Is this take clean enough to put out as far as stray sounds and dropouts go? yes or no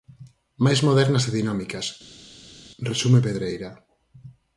yes